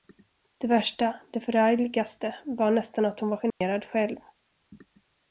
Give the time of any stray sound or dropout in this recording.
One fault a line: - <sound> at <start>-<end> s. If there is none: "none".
- dropout at 3.5-3.6 s